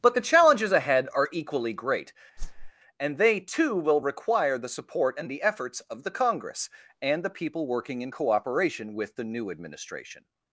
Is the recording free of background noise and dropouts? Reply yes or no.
no